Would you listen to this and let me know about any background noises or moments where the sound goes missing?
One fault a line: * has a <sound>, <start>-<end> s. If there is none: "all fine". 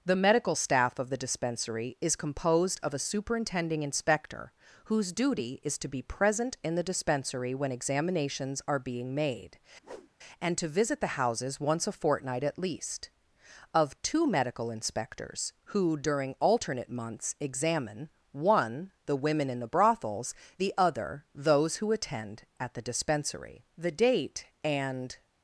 * has a whoosh, 9.8-10.1 s